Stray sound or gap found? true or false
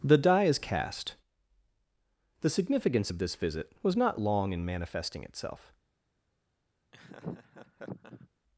true